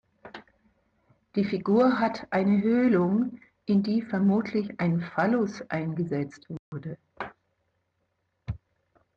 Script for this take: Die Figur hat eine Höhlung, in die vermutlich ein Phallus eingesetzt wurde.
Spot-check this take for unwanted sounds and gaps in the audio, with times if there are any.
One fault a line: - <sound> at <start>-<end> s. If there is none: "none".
- dropout at 6.6-6.7 s